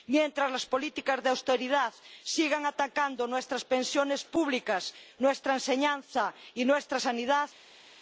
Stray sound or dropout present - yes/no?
no